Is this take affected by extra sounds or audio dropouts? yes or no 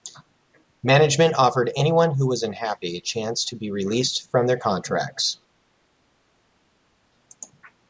no